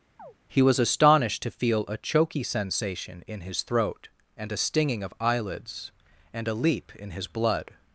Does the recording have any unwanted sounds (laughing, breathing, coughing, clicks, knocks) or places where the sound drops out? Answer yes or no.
yes